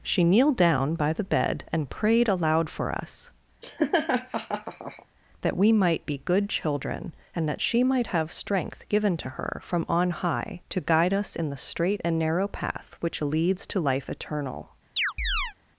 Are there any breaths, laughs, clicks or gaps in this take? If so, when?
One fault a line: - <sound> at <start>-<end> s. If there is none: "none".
- laugh at 3.6-5.1 s
- chirp at 15.0-15.5 s